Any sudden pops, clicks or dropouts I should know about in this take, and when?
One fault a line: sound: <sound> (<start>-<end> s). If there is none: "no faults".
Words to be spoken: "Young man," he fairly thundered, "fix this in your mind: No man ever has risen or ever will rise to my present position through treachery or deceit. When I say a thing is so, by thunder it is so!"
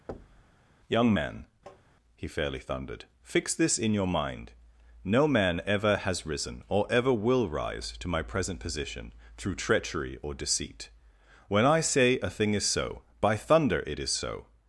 sound: thud (0.1-0.5 s)
sound: tap (1.7-1.8 s)